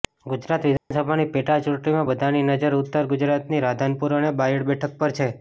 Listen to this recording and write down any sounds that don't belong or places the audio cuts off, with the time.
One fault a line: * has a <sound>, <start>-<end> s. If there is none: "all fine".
* has a dropout, 0.8-0.9 s